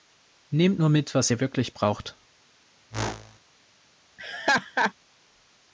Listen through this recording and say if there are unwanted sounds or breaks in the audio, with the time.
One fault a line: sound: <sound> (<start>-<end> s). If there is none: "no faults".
sound: whoosh (2.9-3.4 s)
sound: laugh (4.2-4.9 s)